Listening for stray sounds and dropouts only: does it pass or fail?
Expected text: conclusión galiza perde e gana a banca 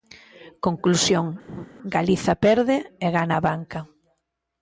fail